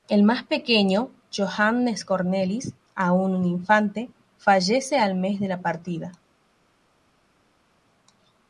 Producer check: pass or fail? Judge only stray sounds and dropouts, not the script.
pass